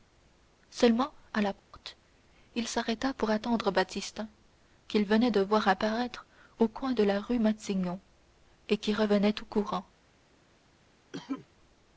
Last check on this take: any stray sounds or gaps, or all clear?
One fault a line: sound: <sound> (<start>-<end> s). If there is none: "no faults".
sound: dropout (1.6-1.7 s)
sound: cough (11.1-11.5 s)